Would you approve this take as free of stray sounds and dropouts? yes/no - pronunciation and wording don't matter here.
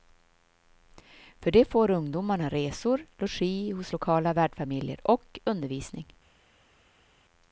yes